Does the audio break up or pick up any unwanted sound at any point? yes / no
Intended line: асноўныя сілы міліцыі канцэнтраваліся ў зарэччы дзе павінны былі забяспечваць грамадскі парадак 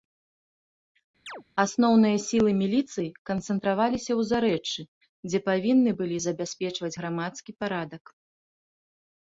yes